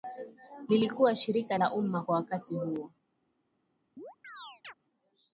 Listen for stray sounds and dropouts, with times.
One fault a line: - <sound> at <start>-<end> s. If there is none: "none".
- chirp at 4.0-4.7 s